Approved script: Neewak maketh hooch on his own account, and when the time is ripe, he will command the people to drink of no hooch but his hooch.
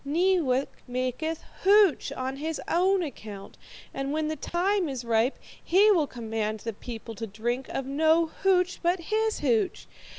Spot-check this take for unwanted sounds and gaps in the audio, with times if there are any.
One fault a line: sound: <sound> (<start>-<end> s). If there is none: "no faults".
sound: dropout (4.5-4.5 s)